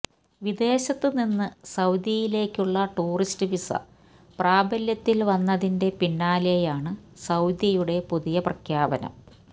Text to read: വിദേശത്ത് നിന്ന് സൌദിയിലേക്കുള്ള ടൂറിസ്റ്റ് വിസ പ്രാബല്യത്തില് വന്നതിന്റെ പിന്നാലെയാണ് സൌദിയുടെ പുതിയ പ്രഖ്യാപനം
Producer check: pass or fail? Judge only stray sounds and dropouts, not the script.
pass